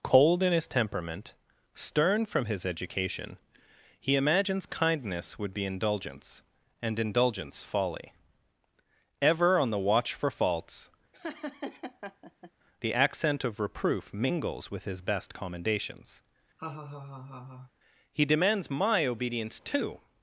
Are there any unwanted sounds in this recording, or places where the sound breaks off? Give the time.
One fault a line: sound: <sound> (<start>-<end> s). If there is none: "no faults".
sound: laugh (11.1-12.5 s)
sound: laugh (16.6-17.7 s)